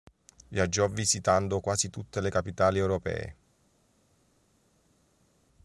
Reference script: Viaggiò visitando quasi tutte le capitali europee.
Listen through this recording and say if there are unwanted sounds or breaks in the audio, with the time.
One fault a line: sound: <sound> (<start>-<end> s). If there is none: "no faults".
no faults